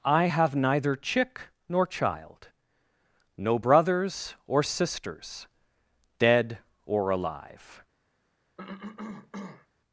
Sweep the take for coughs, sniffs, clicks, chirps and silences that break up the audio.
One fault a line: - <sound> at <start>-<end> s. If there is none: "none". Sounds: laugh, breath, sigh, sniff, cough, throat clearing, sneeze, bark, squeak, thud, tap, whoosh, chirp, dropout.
- cough at 8.6-9.7 s